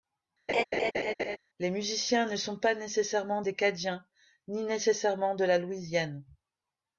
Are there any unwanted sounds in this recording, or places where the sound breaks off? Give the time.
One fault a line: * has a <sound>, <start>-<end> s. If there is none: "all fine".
* has a laugh, 0.5-1.4 s